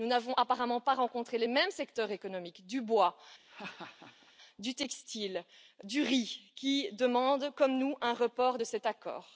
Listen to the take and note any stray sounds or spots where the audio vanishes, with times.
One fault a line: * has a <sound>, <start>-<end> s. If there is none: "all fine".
* has a laugh, 3.5-4.3 s